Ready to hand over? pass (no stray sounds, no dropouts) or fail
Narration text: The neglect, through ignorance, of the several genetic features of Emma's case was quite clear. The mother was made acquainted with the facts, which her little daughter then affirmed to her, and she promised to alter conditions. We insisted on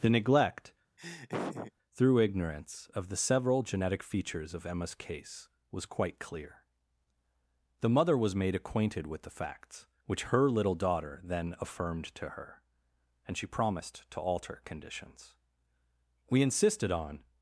fail